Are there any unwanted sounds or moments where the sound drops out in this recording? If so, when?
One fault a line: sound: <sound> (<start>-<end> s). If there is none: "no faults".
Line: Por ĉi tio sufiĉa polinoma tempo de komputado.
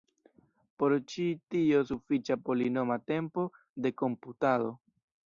no faults